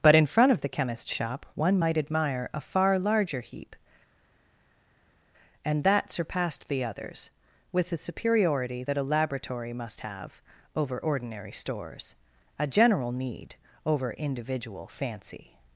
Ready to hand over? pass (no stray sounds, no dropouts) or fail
pass